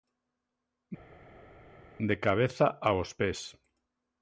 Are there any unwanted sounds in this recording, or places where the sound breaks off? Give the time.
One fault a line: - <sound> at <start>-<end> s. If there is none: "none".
none